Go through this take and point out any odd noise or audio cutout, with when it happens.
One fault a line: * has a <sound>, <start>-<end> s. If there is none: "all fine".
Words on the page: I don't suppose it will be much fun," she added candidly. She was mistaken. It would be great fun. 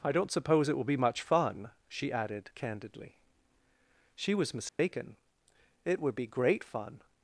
* has a dropout, 4.7-4.8 s